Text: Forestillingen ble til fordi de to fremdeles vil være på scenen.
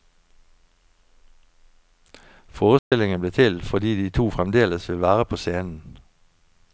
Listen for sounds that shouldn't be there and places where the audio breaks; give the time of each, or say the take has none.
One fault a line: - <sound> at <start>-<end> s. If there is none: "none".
- dropout at 2.8-2.9 s